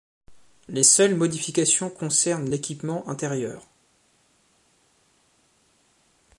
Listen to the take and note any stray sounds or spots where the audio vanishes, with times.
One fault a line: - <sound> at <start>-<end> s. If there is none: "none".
none